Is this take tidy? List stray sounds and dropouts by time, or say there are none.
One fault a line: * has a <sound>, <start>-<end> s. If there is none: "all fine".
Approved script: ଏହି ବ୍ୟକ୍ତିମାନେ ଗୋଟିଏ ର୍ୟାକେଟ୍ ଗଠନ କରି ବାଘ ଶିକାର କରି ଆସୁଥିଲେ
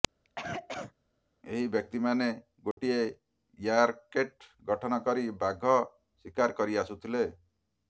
* has a cough, 0.2-0.9 s
* has a dropout, 2.7-2.8 s